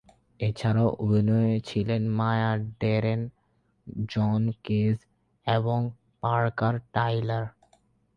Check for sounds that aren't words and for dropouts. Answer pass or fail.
pass